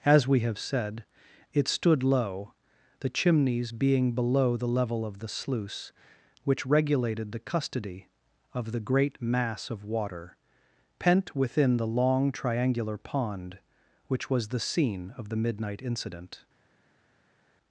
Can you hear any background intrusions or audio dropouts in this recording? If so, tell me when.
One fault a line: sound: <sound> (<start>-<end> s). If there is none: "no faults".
no faults